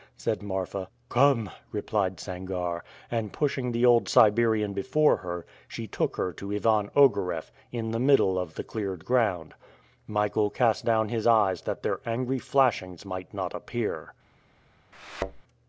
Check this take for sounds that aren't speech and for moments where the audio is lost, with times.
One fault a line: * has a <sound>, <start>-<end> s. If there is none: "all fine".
* has a thud, 14.9-15.4 s